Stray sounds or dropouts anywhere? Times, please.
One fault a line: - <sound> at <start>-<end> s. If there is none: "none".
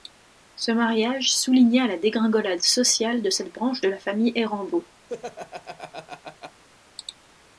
- laugh at 5.1-6.6 s